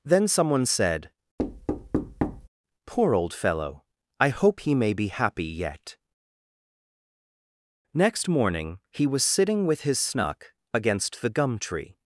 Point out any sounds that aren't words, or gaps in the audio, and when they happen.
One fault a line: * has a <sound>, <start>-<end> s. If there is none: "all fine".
* has a thud, 1.4-2.5 s